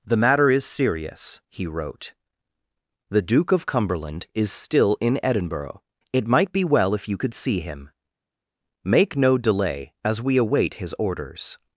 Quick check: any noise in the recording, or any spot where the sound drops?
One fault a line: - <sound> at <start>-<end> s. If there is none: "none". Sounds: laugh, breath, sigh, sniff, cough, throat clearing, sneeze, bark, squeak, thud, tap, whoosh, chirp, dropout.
none